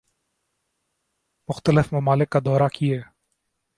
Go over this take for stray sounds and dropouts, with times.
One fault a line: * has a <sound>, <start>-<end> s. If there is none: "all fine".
all fine